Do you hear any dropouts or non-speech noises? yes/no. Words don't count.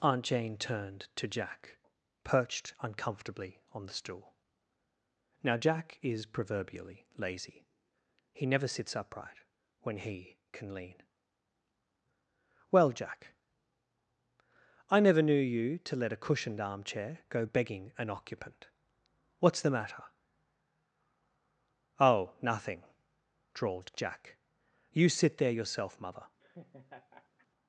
yes